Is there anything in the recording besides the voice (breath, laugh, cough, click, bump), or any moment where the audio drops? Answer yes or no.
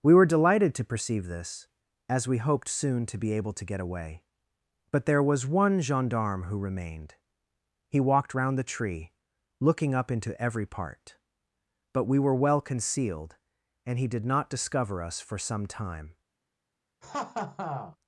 yes